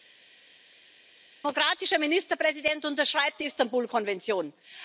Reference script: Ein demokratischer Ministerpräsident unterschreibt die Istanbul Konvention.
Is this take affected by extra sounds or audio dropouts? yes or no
no